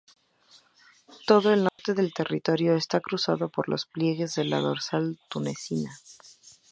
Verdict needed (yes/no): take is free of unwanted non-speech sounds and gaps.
no